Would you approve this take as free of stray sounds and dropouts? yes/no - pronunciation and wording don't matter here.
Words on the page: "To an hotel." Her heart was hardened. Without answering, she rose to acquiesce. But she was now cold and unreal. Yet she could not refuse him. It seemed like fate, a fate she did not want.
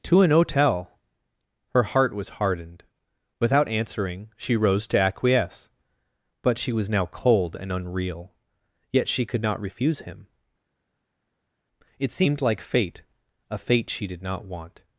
yes